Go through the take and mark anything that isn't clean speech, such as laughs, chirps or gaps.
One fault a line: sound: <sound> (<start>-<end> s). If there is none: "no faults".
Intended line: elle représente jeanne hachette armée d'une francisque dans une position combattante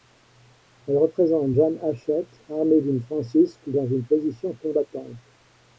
no faults